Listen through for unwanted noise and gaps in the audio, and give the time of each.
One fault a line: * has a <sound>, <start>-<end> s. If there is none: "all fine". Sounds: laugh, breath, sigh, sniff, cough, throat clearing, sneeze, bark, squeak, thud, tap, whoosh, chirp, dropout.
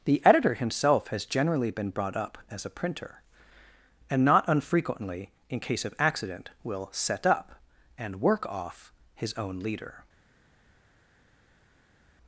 all fine